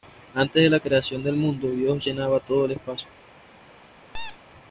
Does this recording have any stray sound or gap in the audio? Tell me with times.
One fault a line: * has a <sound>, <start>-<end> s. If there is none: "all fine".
* has a squeak, 4.1-4.4 s